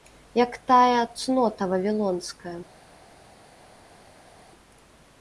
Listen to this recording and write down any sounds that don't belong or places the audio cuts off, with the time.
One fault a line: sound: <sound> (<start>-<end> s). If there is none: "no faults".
no faults